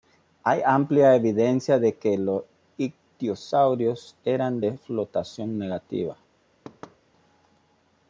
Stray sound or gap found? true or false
true